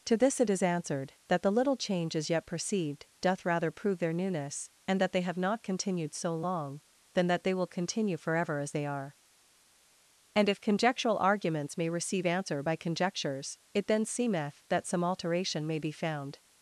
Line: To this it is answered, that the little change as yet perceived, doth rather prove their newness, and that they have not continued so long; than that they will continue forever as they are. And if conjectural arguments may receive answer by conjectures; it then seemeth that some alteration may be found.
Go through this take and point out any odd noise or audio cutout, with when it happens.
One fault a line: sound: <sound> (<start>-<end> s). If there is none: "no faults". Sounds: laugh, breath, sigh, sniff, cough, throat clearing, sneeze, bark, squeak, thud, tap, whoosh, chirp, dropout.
no faults